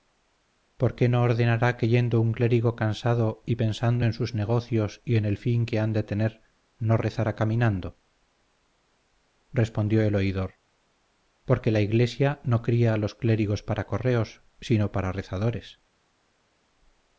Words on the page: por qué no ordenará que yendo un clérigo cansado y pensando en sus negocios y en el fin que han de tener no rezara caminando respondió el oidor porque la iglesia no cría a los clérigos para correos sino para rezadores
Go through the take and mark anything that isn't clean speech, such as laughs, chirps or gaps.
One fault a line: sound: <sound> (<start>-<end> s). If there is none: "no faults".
no faults